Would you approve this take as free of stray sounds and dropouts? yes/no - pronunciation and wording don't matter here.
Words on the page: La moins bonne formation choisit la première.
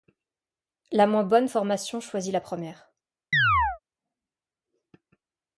no